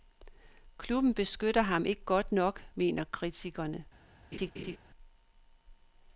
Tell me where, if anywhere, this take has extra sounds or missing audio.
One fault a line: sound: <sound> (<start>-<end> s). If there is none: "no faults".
sound: laugh (4.3-4.8 s)